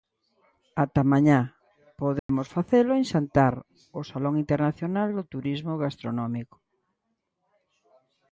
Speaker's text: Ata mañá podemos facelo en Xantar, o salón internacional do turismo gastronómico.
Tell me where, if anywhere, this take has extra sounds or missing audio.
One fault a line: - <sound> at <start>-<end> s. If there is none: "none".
- dropout at 2.2-2.3 s